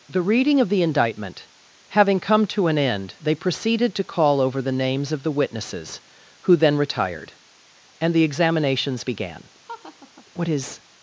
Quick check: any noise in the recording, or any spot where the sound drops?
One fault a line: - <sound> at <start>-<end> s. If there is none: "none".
- laugh at 9.6-10.2 s